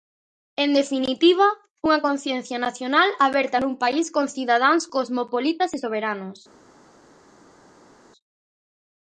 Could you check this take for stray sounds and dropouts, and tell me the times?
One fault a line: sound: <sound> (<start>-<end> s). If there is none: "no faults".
no faults